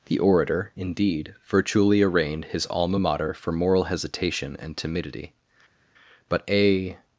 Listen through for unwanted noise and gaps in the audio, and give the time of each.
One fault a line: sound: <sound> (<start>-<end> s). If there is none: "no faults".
no faults